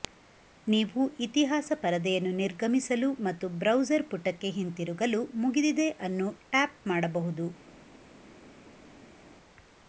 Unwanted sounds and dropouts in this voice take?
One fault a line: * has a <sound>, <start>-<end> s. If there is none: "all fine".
all fine